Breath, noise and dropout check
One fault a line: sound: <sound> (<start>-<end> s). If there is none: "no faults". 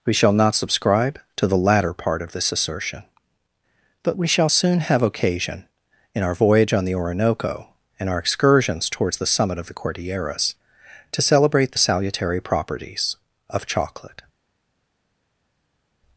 no faults